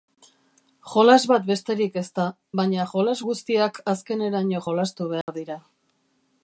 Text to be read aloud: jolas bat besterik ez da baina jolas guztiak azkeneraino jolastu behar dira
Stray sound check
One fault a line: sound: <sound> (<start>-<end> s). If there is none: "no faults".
sound: dropout (5.2-5.3 s)